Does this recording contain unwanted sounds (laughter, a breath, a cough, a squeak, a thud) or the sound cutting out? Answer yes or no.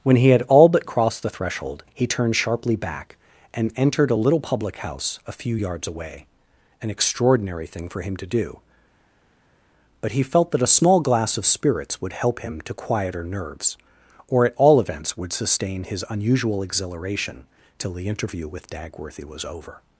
no